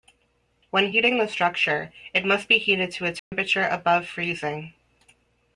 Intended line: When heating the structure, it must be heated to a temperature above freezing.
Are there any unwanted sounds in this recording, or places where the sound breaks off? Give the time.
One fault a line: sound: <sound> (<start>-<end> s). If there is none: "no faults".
sound: dropout (3.2-3.3 s)